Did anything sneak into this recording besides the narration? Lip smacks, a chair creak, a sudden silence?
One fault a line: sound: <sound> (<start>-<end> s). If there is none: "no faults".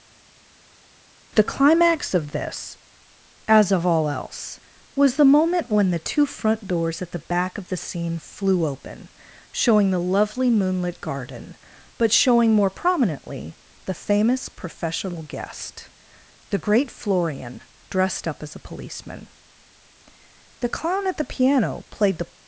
no faults